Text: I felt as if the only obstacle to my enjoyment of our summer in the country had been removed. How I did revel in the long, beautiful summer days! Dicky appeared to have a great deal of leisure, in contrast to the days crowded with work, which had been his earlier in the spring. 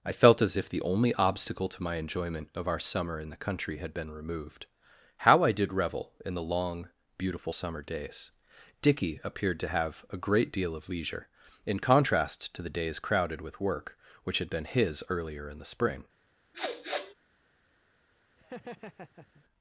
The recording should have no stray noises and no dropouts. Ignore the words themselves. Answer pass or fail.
fail